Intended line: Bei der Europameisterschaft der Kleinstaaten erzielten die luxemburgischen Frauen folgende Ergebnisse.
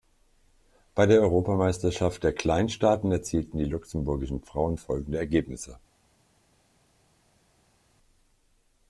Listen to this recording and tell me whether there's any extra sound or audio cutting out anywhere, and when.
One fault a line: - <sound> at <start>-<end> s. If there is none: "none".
none